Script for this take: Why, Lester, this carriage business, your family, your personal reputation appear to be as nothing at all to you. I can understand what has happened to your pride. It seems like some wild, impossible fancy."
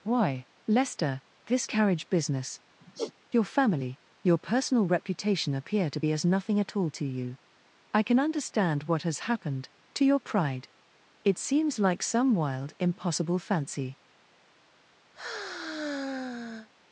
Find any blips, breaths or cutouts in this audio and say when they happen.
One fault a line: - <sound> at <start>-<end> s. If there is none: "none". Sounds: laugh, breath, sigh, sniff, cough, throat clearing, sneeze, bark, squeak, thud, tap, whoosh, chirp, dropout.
- sigh at 2.8-3.1 s
- sigh at 15.1-16.7 s